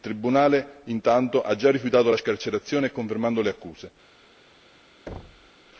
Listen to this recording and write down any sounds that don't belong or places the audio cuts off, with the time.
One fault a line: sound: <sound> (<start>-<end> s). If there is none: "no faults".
sound: thud (5.1-5.5 s)